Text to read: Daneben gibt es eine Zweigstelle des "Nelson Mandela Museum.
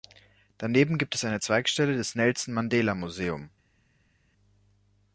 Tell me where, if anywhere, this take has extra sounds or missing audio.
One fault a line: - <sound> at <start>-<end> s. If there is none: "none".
none